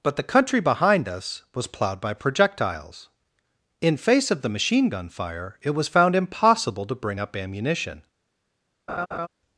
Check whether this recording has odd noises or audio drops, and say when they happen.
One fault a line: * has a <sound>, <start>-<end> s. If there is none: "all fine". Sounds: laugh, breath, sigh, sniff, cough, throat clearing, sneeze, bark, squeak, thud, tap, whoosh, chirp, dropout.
* has a laugh, 8.9-9.3 s